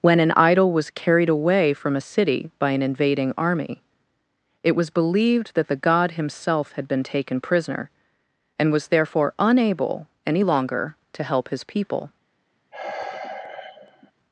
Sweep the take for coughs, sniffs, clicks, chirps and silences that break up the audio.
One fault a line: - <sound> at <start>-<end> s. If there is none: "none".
- sigh at 12.7-14.1 s